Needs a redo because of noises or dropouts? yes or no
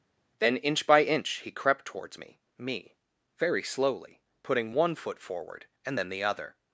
no